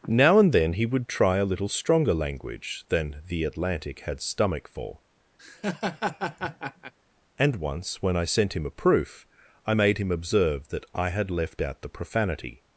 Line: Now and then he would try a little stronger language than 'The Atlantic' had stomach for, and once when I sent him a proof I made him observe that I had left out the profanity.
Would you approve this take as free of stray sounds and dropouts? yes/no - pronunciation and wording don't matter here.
no